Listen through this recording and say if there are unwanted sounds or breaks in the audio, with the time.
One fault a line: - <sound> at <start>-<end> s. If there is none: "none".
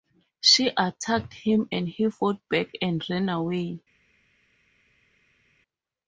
none